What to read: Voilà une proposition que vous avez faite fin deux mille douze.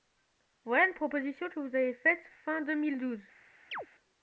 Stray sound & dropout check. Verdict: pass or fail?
fail